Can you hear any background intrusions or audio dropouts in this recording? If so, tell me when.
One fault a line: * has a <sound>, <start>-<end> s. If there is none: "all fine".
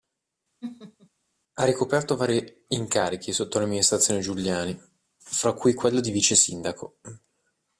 * has a laugh, 0.6-1.1 s